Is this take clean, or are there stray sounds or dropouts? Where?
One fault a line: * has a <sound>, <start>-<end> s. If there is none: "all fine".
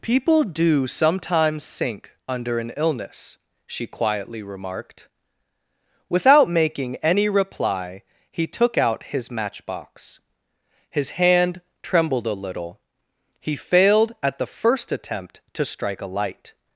all fine